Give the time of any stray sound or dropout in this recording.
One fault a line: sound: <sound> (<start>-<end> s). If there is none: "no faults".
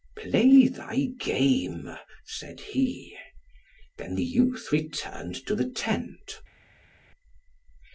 no faults